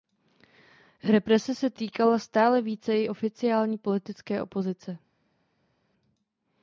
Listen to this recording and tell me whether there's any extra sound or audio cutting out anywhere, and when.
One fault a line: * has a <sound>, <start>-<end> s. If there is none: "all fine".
all fine